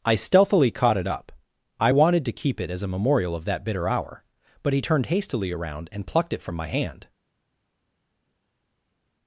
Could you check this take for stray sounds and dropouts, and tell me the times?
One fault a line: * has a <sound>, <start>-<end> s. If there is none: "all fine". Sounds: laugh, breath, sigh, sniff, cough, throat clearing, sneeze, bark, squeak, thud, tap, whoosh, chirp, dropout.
all fine